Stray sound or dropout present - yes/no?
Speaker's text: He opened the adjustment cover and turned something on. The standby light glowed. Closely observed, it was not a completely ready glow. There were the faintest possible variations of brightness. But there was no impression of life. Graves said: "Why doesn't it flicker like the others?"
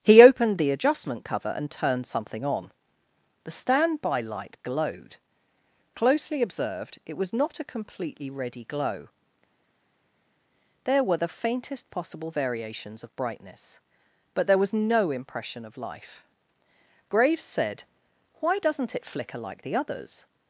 no